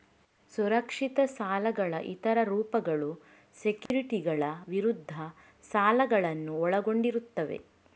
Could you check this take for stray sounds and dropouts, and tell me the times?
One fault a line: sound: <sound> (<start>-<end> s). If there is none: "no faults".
sound: dropout (3.9-3.9 s)